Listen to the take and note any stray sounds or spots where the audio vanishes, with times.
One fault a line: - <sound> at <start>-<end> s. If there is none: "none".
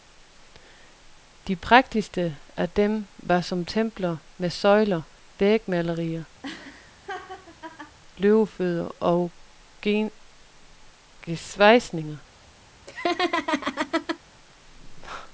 - laugh at 6.4-8.0 s
- laugh at 12.9-14.2 s